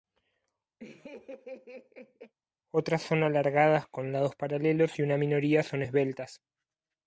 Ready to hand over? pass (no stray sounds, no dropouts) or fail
fail